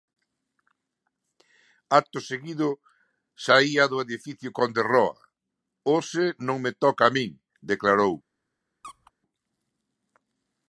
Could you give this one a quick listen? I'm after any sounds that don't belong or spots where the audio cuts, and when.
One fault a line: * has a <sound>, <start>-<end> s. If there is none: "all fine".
* has a squeak, 8.8-9.1 s